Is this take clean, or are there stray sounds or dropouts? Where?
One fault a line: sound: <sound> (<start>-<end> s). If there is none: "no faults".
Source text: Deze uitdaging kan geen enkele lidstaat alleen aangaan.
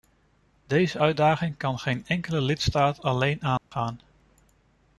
sound: dropout (3.6-3.7 s)